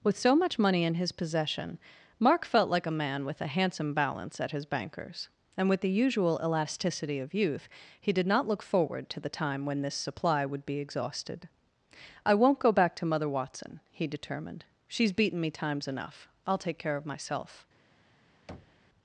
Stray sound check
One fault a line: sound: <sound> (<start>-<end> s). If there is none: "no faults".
sound: thud (18.5-18.9 s)